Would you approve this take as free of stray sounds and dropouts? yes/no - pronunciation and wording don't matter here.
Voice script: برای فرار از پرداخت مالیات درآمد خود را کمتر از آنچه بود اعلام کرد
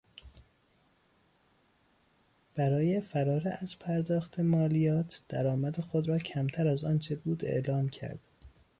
yes